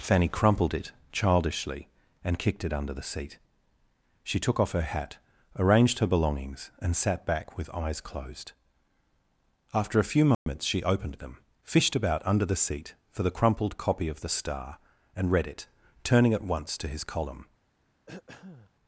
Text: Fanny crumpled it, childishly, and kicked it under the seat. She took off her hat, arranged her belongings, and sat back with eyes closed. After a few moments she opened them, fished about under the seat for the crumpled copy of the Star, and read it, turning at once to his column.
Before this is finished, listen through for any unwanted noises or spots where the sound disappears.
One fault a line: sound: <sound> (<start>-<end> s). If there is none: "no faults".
sound: dropout (10.3-10.5 s)
sound: throat clearing (18.1-18.7 s)